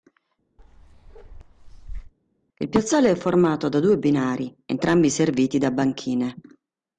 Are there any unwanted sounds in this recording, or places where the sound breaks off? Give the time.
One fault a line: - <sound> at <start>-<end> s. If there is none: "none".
- bark at 0.6-2.1 s